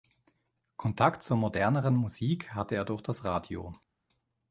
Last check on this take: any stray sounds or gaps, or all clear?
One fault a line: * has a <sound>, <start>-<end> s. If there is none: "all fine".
all fine